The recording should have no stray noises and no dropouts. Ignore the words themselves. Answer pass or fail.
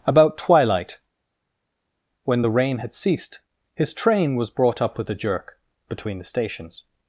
pass